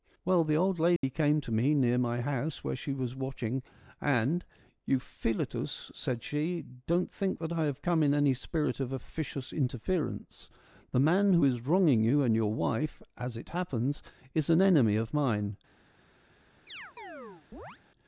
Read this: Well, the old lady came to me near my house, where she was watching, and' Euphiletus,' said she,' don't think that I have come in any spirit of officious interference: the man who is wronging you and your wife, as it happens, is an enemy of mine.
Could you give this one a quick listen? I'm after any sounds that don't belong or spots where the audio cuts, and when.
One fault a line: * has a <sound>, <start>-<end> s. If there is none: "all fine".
* has a dropout, 1.0-1.0 s
* has a chirp, 16.7-17.8 s